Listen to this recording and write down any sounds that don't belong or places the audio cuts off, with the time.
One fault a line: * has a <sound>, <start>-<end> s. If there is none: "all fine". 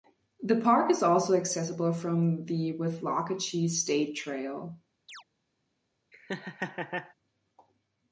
* has a chirp, 5.1-5.2 s
* has a laugh, 6.1-7.1 s